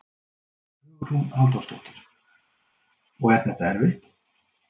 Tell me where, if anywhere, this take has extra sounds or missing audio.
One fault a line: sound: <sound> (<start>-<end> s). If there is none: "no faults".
no faults